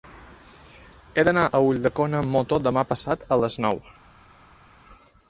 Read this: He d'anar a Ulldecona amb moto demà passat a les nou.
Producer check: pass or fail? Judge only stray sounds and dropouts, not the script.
pass